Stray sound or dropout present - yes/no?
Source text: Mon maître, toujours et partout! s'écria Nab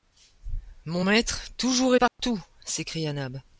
yes